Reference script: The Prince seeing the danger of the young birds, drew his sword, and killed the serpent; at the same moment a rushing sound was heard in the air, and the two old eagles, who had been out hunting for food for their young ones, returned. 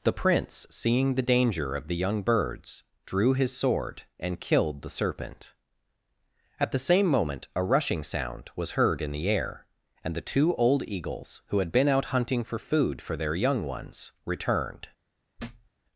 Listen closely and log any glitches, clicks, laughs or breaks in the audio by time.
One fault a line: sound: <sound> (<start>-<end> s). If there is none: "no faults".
sound: thud (15.4-15.7 s)